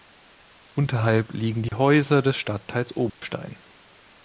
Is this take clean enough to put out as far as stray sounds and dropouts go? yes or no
no